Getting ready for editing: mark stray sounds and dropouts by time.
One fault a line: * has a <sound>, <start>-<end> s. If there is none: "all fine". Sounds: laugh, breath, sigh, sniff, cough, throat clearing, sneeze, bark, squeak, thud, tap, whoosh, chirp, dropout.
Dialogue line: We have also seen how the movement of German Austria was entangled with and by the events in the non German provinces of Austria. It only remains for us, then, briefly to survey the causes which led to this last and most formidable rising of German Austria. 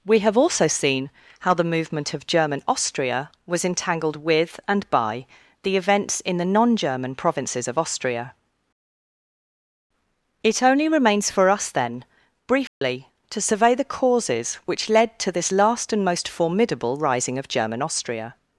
* has a dropout, 12.7-12.8 s